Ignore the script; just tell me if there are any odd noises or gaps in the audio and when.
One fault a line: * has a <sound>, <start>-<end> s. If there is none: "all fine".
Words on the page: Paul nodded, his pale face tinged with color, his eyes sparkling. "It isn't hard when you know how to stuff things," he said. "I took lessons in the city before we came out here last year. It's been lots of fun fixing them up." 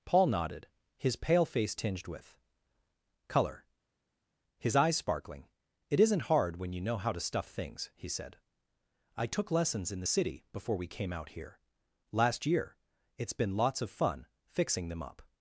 all fine